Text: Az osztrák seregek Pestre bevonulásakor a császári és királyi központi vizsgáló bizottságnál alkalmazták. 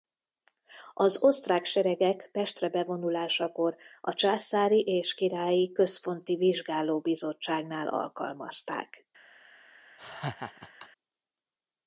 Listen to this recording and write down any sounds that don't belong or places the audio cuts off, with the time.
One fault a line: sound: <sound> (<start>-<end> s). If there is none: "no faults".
sound: laugh (10.0-10.9 s)